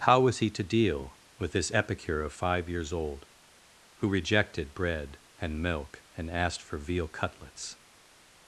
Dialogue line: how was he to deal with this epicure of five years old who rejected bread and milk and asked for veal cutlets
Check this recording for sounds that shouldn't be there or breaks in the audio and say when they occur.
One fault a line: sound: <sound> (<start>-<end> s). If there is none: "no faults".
no faults